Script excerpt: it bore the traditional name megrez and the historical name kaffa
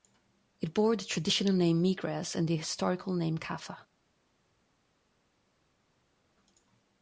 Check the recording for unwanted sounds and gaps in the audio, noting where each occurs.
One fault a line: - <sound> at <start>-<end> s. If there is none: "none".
none